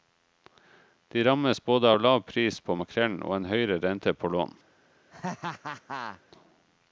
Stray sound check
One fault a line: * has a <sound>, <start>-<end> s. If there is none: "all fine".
* has a laugh, 5.1-6.2 s